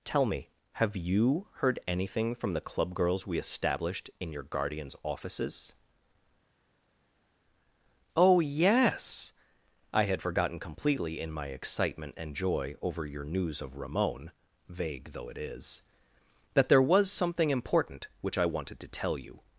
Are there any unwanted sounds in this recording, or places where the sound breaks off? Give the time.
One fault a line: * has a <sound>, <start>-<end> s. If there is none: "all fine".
all fine